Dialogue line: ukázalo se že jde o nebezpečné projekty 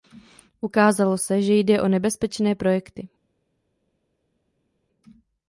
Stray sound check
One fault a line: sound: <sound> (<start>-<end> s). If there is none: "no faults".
no faults